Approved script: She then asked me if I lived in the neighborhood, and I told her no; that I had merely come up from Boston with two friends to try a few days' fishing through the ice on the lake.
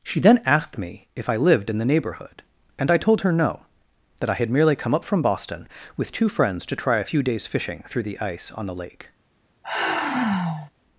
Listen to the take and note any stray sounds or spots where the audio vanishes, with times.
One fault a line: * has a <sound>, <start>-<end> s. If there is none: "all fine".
* has a sigh, 9.6-10.7 s